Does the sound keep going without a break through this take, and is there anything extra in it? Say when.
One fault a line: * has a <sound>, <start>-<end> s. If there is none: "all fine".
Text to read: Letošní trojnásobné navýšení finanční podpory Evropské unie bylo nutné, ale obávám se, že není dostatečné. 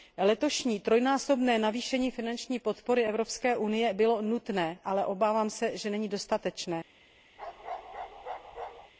* has a bark, 7.4-8.9 s